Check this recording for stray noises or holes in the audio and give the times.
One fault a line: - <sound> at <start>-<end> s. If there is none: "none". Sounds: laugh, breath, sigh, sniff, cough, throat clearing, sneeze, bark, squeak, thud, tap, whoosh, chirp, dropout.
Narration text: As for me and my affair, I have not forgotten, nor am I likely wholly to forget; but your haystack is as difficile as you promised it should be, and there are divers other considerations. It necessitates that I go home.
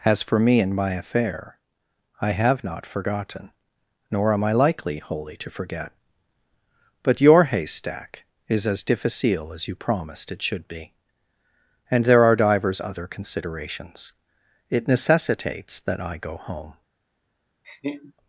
- laugh at 17.6-18.1 s